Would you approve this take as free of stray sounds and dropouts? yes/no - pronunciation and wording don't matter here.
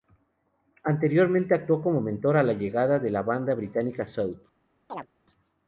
no